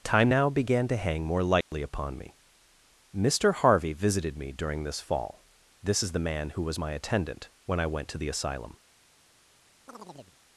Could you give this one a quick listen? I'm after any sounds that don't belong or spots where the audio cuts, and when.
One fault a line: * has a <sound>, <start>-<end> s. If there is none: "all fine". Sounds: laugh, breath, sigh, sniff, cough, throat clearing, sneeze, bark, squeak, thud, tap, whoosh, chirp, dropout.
* has a dropout, 1.6-1.7 s
* has a chirp, 9.9-10.4 s